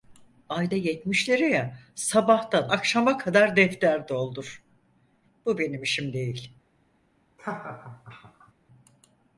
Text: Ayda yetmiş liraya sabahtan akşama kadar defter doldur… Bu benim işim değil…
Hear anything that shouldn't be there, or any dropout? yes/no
yes